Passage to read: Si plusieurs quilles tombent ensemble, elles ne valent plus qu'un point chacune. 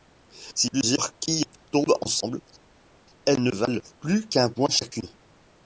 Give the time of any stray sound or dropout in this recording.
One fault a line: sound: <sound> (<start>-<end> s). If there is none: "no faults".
no faults